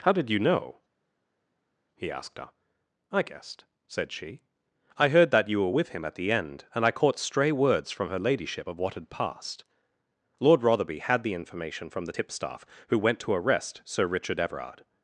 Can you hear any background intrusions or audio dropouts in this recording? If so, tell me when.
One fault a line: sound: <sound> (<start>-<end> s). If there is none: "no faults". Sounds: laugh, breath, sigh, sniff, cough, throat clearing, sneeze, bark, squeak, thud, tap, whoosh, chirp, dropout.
no faults